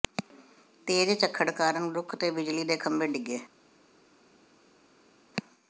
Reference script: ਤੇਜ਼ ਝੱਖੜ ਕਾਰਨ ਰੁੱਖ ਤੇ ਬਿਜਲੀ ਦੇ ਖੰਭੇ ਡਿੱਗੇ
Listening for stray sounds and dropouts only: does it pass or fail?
pass